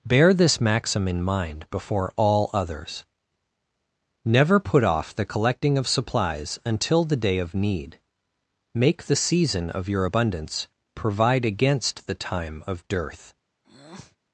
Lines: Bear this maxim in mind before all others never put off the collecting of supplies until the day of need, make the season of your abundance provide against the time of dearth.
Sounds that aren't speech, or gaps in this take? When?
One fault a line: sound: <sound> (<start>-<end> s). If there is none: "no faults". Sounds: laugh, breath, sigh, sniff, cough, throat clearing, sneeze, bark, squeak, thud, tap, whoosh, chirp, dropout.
sound: breath (13.6-14.2 s)